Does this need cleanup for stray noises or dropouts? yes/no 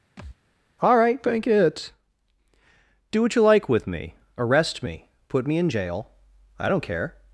yes